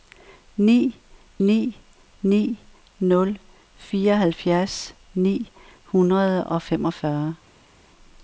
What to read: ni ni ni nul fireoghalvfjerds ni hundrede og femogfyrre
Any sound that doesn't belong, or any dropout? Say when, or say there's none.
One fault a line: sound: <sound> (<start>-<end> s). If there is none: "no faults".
no faults